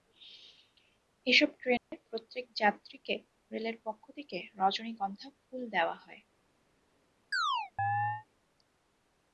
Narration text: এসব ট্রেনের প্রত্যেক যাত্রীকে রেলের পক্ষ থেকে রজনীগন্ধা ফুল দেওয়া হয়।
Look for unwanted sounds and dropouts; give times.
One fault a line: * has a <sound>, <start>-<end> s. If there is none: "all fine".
* has a dropout, 1.8-1.9 s
* has a chirp, 7.3-8.3 s